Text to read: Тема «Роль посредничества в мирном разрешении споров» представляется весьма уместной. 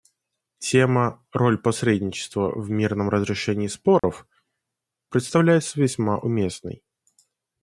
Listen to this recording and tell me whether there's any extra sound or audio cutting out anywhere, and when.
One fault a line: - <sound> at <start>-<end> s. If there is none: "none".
- dropout at 4.0-4.0 s